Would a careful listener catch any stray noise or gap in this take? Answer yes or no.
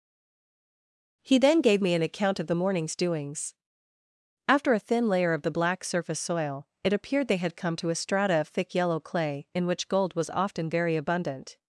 no